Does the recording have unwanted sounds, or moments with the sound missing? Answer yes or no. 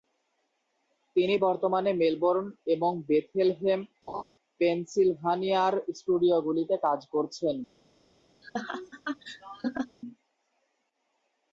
yes